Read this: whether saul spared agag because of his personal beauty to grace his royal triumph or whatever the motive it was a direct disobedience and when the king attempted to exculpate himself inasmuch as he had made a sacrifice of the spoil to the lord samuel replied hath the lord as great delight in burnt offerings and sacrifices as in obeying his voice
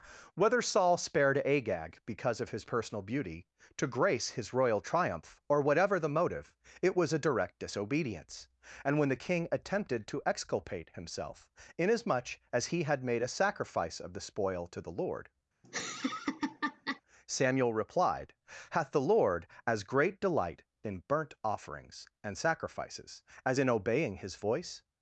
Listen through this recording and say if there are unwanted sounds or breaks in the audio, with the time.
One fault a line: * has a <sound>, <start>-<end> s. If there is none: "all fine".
* has a laugh, 15.6-17.0 s